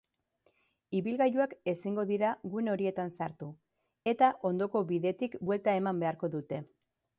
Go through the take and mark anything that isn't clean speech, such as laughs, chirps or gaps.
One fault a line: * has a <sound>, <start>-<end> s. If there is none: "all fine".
all fine